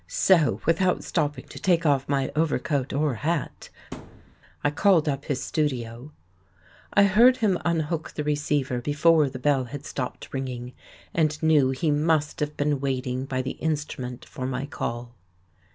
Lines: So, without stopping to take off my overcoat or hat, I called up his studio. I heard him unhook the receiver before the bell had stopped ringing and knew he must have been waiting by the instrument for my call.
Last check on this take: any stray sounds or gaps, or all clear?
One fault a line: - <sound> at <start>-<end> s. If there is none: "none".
- thud at 3.9-4.4 s